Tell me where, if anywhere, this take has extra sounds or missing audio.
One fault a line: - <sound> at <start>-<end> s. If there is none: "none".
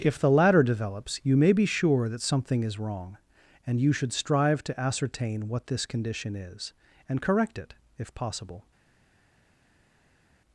none